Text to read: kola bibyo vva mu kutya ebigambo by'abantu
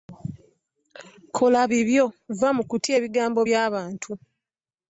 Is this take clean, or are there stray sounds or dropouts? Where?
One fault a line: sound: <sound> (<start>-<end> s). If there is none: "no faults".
no faults